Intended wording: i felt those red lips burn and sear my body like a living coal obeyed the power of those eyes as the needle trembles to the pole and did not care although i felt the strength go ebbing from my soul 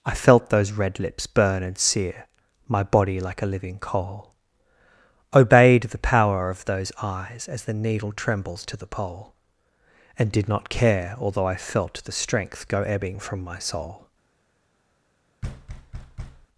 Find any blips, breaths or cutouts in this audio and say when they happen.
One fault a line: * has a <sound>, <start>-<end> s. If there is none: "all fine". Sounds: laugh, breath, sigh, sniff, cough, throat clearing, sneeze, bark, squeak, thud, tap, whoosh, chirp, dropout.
* has a thud, 15.4-16.5 s